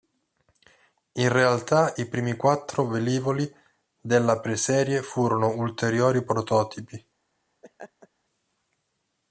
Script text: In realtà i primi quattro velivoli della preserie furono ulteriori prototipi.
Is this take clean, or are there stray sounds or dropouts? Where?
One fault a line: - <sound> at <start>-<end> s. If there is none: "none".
- laugh at 7.6-8.1 s